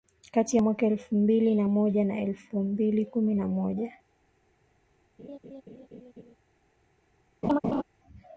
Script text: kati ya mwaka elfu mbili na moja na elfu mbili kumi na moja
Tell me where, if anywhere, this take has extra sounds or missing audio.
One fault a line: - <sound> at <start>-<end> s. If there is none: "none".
- laugh at 5.2-6.3 s
- laugh at 7.4-7.8 s